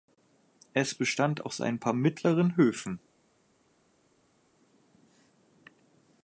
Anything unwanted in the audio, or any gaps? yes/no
no